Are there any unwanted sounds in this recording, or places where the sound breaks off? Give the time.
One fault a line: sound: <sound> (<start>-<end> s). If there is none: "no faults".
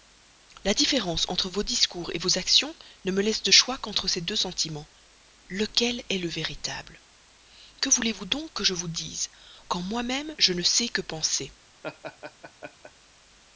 sound: laugh (11.8-12.9 s)